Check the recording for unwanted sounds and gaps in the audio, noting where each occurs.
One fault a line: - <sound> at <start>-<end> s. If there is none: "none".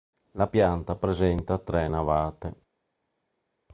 none